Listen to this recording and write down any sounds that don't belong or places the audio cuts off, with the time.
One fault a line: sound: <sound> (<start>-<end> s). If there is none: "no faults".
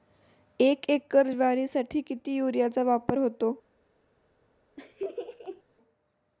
sound: laugh (4.8-5.6 s)